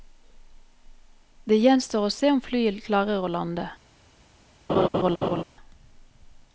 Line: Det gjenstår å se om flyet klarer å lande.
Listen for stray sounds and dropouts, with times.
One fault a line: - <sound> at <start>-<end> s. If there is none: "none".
- laugh at 4.7-5.4 s